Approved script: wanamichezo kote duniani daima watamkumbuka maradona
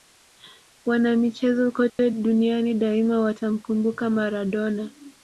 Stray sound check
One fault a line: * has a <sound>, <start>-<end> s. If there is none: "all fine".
* has a dropout, 1.9-2.0 s